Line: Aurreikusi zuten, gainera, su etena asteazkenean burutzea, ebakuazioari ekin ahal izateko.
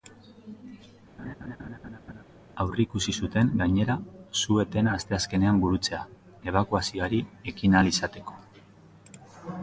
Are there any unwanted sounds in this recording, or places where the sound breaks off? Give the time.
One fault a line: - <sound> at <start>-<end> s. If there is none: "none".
- laugh at 1.2-2.2 s